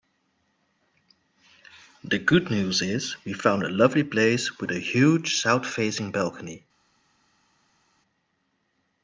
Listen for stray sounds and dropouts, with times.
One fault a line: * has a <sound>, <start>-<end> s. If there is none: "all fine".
all fine